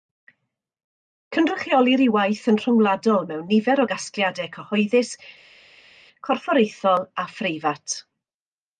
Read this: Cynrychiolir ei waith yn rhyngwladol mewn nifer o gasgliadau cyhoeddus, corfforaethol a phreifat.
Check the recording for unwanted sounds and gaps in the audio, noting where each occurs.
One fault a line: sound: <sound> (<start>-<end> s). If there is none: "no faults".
no faults